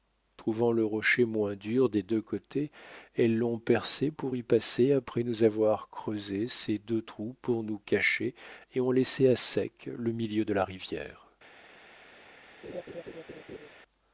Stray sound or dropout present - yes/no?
yes